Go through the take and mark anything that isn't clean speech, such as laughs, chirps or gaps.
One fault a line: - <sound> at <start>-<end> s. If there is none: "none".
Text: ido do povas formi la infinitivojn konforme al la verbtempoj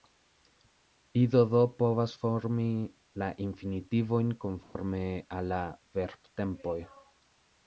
- dropout at 4.6-4.8 s